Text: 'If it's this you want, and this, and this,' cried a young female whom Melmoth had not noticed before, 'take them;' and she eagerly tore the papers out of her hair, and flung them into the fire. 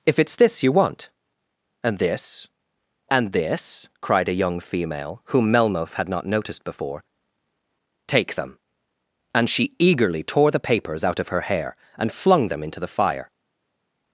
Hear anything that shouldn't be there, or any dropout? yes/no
no